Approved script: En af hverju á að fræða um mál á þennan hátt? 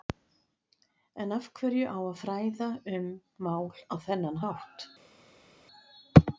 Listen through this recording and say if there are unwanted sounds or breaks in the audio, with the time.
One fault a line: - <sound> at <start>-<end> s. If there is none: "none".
none